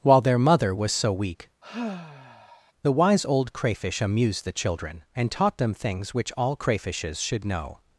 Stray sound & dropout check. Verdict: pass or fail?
fail